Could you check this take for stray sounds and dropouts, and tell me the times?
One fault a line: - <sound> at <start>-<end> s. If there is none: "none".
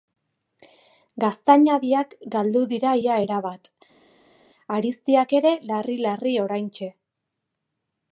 none